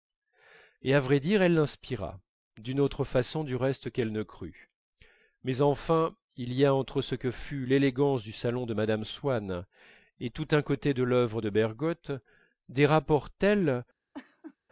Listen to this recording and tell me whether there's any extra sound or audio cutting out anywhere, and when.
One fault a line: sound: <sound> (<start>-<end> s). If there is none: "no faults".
sound: laugh (14.1-14.6 s)